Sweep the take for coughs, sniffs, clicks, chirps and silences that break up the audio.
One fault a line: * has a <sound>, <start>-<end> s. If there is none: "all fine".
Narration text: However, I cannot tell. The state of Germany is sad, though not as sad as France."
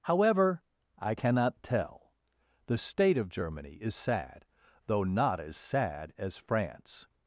all fine